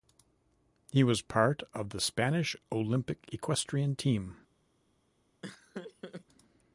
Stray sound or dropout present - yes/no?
yes